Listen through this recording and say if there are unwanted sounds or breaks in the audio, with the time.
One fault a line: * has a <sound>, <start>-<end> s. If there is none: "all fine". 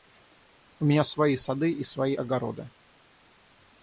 all fine